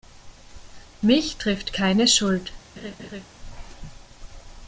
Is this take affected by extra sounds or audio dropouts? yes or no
yes